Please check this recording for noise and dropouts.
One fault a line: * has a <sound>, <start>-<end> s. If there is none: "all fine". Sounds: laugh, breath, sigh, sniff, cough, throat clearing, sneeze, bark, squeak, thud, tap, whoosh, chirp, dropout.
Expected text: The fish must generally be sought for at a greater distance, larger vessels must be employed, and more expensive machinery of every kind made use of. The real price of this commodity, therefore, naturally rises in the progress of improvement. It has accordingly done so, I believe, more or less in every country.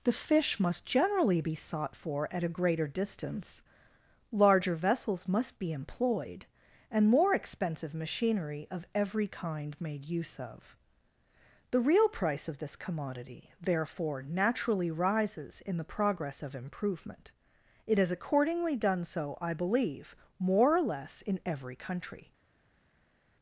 all fine